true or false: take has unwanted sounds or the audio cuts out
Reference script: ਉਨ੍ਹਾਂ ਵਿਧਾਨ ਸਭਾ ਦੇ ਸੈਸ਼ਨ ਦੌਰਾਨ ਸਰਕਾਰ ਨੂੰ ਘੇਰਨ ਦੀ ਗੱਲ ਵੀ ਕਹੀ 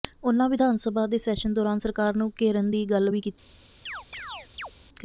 true